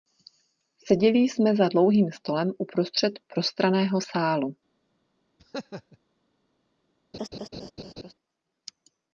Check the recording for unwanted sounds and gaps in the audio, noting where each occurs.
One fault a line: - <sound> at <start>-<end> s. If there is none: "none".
- laugh at 5.4-6.0 s
- laugh at 7.1-8.1 s